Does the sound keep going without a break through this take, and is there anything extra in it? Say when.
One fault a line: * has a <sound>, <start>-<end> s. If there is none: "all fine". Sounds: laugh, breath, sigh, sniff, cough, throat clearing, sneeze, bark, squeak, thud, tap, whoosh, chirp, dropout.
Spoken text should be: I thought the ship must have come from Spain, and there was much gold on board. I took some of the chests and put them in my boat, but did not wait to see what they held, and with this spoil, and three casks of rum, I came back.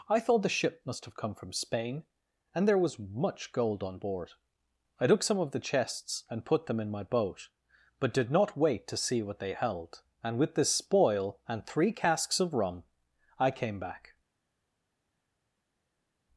all fine